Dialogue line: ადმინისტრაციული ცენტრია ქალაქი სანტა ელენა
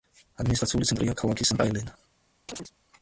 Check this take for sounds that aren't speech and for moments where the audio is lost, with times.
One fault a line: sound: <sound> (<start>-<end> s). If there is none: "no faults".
sound: chirp (2.5-2.7 s)